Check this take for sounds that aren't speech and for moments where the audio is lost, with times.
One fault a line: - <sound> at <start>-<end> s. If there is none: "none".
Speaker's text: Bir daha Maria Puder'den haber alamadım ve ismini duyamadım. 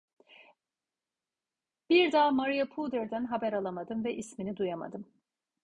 none